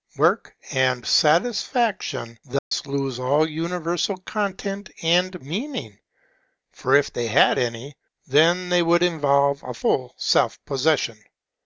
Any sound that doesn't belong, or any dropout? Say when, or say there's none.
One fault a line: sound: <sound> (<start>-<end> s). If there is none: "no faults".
sound: dropout (2.6-2.7 s)